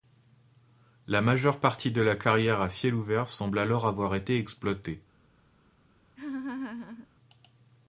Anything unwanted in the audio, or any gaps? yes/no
yes